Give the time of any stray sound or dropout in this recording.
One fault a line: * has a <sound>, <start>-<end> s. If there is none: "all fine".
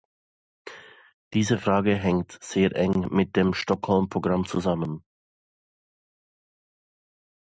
all fine